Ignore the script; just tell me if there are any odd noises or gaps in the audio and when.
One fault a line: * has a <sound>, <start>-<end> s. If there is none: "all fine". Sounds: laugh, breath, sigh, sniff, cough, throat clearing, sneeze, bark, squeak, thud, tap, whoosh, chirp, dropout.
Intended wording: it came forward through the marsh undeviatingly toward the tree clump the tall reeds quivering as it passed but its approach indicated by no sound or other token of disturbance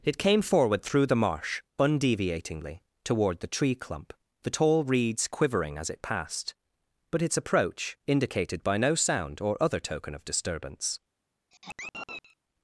* has a sigh, 11.5-12.4 s